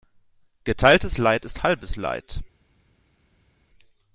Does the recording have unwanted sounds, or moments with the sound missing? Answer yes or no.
no